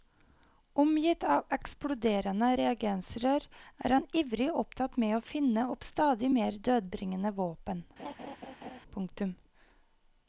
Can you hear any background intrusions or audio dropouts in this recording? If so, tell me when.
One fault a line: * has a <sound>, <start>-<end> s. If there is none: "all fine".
* has a laugh, 8.0-8.8 s